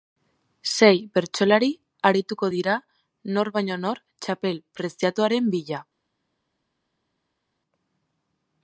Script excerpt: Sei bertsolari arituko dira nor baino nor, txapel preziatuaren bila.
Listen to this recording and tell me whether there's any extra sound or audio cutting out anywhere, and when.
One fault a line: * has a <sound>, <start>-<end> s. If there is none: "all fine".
all fine